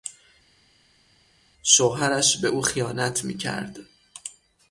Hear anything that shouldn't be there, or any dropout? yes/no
no